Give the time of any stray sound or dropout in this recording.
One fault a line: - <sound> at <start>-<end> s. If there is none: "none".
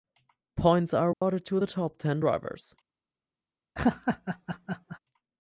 - dropout at 1.1-1.2 s
- laugh at 3.8-5.0 s